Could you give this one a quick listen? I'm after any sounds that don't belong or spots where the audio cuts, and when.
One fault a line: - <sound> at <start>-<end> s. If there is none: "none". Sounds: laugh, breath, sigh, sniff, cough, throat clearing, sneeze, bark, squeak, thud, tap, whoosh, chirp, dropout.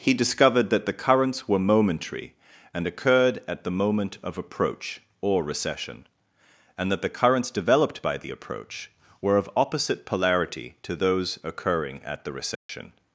- dropout at 12.6-12.7 s